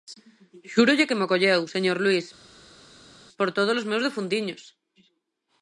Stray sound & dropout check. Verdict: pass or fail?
pass